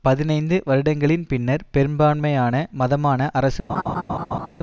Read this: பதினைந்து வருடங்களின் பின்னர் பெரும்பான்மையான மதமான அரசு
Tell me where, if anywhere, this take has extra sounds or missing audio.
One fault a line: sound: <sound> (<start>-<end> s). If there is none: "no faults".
sound: laugh (3.7-4.5 s)